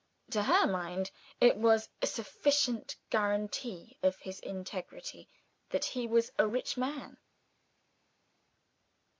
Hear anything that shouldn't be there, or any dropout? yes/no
no